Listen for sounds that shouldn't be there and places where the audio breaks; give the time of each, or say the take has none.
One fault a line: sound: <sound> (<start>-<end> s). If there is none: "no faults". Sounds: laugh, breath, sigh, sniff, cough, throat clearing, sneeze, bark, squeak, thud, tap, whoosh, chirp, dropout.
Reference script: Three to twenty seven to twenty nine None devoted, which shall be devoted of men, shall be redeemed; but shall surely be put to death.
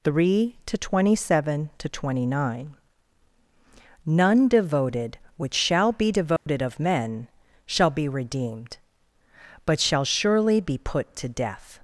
sound: dropout (6.4-6.5 s)